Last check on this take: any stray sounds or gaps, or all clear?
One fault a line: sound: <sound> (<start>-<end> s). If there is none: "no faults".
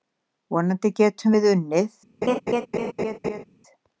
sound: laugh (2.2-3.4 s)